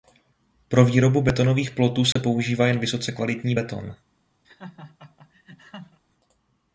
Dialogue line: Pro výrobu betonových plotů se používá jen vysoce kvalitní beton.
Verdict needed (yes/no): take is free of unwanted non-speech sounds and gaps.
no